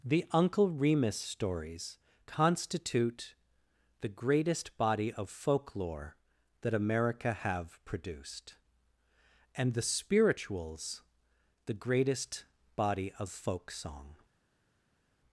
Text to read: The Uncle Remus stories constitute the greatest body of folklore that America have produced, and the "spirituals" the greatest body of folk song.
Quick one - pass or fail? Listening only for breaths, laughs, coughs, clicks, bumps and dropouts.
pass